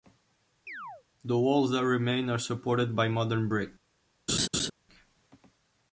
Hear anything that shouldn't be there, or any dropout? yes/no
yes